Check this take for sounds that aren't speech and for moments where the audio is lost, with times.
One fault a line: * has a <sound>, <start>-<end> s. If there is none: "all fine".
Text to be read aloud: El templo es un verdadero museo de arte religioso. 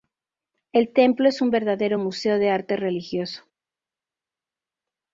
all fine